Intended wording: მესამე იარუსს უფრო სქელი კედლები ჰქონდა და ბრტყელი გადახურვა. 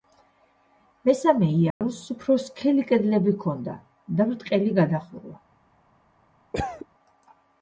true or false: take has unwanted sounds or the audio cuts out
true